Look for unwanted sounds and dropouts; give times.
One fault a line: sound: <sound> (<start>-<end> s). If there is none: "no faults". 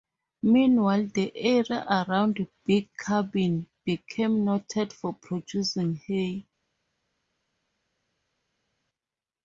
no faults